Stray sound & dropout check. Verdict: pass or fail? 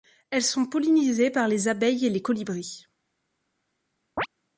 fail